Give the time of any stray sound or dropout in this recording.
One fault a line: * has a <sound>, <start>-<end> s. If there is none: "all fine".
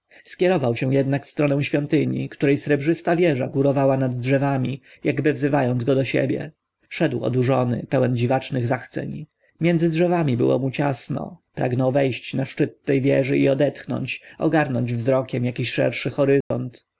* has a dropout, 16.4-16.5 s